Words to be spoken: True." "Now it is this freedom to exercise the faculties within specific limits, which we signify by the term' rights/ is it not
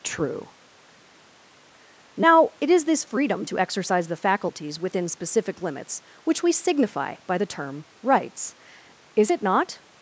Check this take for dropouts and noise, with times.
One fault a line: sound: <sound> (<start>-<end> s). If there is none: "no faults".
no faults